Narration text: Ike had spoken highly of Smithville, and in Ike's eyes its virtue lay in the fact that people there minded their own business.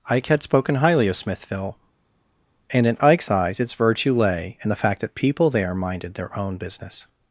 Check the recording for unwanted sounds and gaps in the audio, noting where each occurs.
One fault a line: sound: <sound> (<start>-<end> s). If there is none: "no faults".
no faults